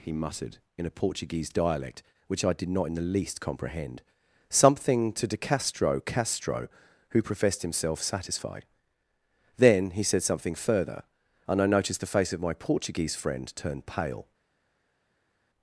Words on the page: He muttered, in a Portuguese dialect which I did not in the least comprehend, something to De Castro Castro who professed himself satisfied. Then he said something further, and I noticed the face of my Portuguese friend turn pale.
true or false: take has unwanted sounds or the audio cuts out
false